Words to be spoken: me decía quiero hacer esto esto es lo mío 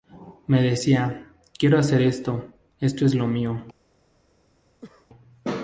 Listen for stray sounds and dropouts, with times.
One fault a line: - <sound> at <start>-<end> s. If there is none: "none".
- cough at 4.8-5.1 s